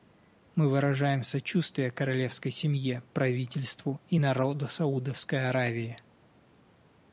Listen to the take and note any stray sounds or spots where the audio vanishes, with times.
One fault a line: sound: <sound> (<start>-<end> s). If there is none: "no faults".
no faults